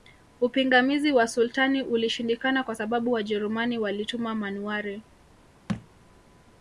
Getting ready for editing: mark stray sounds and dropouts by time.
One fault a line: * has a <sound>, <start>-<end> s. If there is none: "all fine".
* has a thud, 5.7-5.9 s